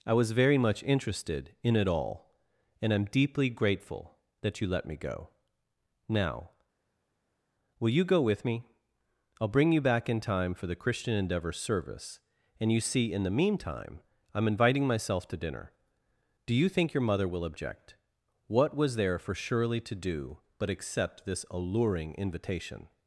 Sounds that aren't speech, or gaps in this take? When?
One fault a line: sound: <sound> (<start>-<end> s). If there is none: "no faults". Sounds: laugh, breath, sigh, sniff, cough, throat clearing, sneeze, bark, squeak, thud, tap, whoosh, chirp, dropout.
no faults